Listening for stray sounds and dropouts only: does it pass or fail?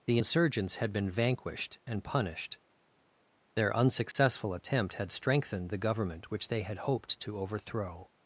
fail